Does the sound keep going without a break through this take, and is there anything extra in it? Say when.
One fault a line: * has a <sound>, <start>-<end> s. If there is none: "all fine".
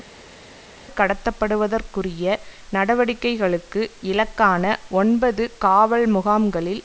all fine